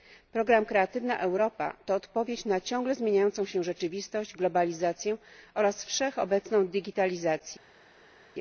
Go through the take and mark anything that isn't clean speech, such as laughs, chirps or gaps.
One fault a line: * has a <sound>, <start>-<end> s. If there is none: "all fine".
all fine